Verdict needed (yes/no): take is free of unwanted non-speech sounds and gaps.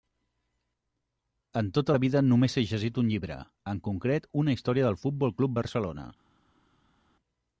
yes